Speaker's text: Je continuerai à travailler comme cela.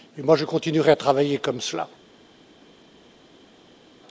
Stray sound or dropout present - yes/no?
no